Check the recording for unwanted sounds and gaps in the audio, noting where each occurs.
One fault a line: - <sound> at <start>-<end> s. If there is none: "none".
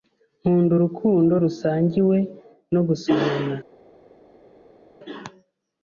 none